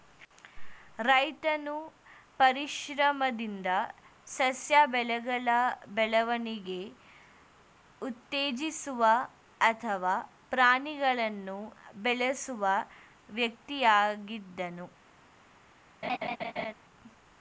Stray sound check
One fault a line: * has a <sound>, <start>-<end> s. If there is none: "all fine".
* has a laugh, 16.0-16.7 s